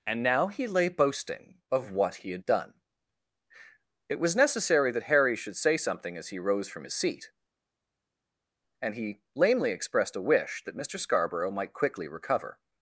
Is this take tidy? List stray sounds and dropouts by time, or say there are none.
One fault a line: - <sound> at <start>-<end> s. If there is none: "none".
none